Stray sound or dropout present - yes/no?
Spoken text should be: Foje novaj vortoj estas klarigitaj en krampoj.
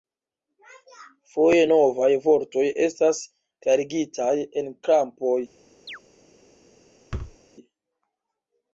yes